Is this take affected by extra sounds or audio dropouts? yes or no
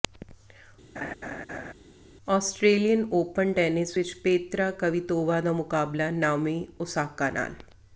yes